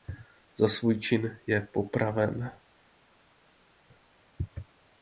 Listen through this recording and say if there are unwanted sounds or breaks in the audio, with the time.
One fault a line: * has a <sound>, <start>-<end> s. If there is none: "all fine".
all fine